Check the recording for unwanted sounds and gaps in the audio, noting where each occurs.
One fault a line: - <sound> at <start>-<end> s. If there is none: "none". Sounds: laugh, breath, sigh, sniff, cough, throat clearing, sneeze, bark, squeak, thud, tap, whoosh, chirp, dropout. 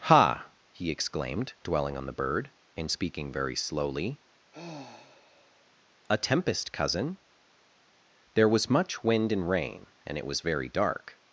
- sigh at 4.5-5.7 s